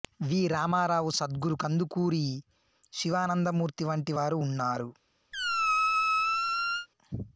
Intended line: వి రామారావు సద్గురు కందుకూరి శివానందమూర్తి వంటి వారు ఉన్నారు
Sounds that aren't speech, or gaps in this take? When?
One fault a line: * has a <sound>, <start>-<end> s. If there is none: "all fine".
* has a squeak, 5.3-6.9 s